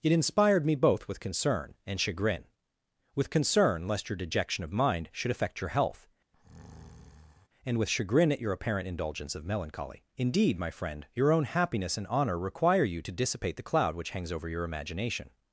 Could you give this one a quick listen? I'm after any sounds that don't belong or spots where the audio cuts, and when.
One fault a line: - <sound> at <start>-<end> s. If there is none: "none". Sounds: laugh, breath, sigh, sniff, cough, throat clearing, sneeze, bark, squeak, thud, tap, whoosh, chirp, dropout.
- breath at 6.3-7.5 s